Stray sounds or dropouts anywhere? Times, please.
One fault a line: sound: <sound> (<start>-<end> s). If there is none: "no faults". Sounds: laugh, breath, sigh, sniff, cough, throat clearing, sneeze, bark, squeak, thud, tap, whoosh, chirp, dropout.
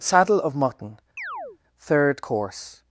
sound: chirp (1.2-1.6 s)